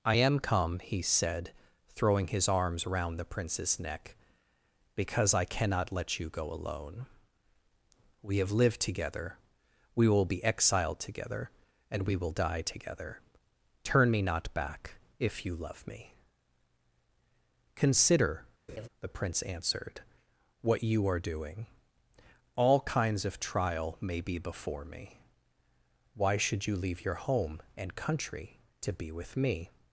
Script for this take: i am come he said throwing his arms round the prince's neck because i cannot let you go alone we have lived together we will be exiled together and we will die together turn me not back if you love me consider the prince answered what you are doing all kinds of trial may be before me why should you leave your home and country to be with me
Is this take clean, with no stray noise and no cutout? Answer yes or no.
no